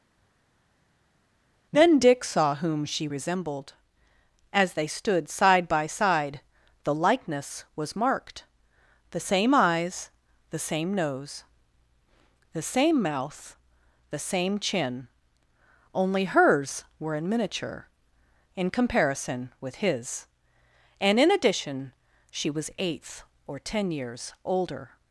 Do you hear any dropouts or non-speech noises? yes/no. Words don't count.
no